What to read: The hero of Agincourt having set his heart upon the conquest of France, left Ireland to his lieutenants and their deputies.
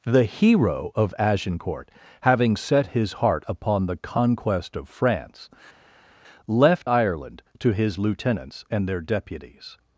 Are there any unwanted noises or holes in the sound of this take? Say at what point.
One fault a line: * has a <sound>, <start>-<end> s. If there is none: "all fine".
all fine